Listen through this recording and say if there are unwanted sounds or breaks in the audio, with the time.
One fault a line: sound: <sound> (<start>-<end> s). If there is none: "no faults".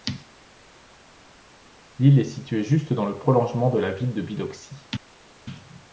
no faults